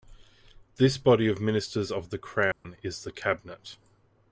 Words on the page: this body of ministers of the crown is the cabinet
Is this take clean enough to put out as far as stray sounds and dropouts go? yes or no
no